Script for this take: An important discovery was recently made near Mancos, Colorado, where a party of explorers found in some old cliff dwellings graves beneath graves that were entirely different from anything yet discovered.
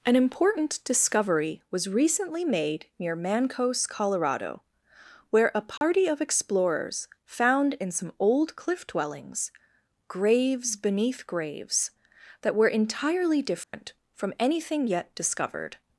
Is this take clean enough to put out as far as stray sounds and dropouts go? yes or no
no